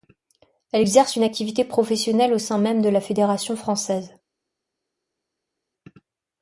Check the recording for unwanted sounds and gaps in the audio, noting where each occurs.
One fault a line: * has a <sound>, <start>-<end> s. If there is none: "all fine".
all fine